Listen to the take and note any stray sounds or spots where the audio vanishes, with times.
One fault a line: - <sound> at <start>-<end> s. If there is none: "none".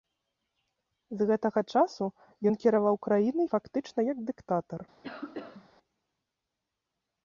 - cough at 5.0-5.7 s